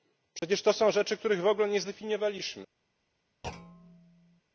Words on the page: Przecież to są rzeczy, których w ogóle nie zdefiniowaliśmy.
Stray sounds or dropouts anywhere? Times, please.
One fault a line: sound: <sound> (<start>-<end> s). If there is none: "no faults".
sound: dropout (0.4-0.4 s)
sound: thud (3.4-4.4 s)